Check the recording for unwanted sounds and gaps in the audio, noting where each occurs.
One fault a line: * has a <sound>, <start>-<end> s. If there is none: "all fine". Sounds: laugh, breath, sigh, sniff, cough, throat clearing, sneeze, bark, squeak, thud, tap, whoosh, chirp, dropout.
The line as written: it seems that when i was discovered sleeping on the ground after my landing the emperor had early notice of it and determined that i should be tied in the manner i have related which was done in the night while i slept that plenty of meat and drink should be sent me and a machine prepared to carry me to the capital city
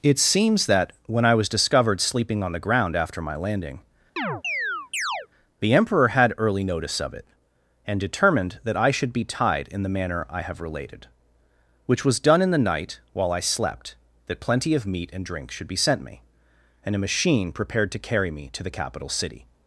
* has a chirp, 4.2-5.3 s